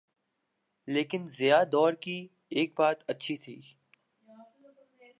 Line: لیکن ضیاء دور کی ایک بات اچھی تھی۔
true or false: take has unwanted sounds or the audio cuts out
false